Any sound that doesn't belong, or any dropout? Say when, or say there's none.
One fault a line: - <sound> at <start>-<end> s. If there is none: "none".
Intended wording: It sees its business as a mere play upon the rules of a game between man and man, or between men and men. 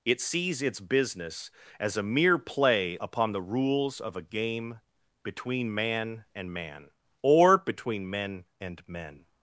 none